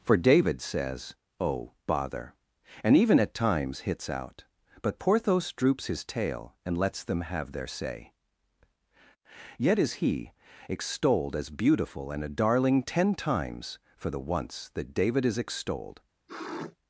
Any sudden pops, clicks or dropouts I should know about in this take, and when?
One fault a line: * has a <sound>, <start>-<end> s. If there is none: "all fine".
* has a sniff, 16.3-16.8 s